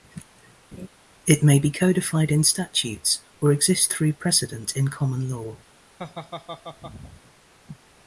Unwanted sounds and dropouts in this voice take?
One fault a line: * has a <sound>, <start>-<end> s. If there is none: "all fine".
* has a laugh, 0.7-0.9 s
* has a laugh, 6.0-7.2 s